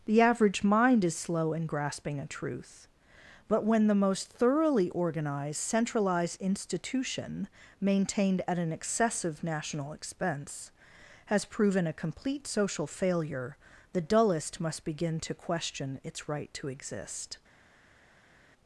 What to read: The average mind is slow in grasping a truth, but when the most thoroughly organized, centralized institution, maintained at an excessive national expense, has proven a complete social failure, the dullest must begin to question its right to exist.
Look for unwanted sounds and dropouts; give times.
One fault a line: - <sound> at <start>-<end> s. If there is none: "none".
none